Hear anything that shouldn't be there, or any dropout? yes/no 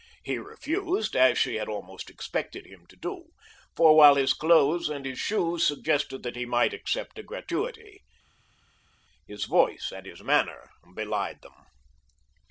no